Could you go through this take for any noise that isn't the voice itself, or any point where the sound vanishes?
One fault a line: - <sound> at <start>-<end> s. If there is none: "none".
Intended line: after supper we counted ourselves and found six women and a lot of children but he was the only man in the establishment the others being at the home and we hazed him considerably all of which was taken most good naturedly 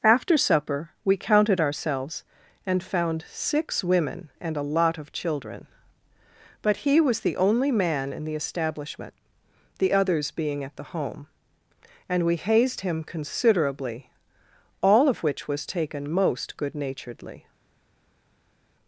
none